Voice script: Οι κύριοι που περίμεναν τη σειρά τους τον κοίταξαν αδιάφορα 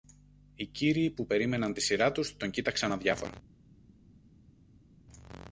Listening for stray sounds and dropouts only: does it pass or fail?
pass